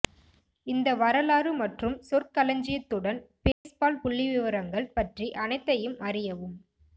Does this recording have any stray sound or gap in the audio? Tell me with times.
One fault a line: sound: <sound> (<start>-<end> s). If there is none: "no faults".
sound: dropout (3.5-3.6 s)